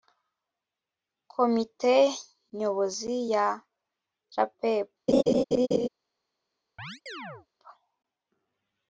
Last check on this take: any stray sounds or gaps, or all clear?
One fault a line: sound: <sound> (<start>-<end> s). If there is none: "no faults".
sound: laugh (5.1-5.9 s)
sound: chirp (6.8-7.5 s)